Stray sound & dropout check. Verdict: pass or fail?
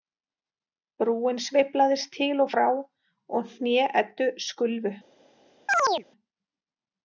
fail